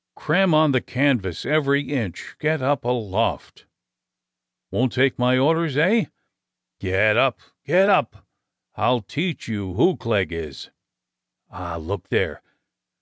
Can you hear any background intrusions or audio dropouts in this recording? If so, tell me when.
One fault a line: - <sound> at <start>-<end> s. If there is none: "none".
none